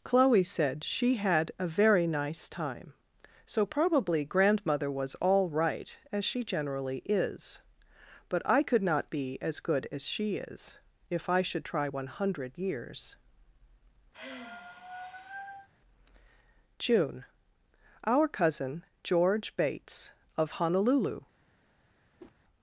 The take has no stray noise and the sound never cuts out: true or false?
false